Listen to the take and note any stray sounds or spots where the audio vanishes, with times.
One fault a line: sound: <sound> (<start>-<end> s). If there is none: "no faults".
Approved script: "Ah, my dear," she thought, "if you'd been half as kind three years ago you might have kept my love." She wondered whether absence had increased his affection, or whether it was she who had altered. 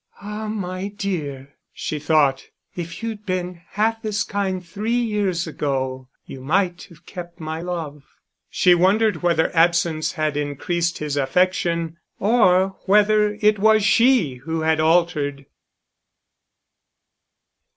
no faults